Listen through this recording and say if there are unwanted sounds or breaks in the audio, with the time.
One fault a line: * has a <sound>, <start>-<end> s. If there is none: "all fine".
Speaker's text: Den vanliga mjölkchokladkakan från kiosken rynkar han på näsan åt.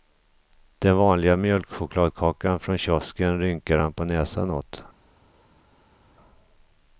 all fine